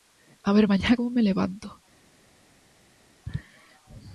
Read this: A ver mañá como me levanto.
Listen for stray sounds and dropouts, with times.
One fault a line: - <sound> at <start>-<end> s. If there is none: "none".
none